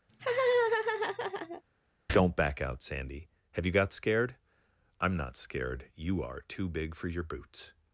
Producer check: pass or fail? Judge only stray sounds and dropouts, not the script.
fail